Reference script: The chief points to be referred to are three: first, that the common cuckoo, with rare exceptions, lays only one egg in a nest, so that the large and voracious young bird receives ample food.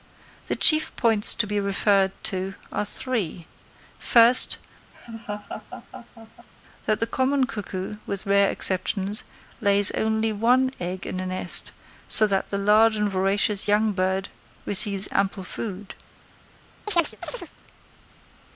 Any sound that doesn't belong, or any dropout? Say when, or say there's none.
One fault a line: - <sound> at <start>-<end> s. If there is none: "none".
- laugh at 4.9-6.5 s
- chirp at 16.9-17.5 s